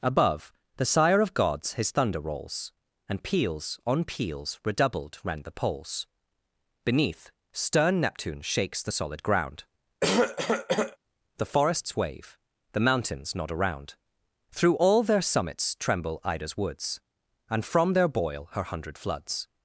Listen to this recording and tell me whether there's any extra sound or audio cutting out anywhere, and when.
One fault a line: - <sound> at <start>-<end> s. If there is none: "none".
- cough at 10.0-11.0 s